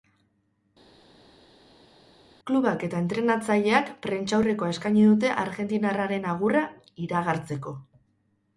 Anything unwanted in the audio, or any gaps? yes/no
no